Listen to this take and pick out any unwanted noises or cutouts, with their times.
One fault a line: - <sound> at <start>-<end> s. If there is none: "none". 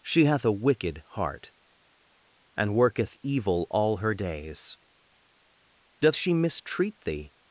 none